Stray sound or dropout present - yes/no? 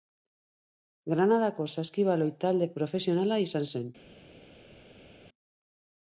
no